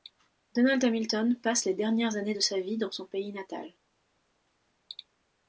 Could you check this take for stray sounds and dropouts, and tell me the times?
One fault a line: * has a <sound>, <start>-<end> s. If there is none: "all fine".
all fine